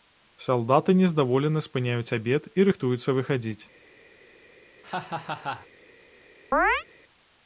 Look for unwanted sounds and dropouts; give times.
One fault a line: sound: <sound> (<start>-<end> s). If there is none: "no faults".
sound: laugh (4.8-5.7 s)
sound: chirp (6.5-6.8 s)